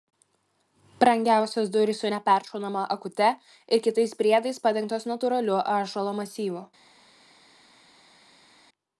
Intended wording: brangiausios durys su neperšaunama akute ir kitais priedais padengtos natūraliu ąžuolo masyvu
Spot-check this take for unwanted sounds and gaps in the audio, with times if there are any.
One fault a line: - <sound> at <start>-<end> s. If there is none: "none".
none